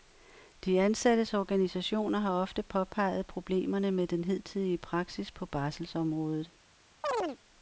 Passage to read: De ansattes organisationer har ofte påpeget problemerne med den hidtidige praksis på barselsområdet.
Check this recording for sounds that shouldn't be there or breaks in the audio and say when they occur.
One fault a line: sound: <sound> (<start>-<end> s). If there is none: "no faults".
sound: chirp (7.0-7.4 s)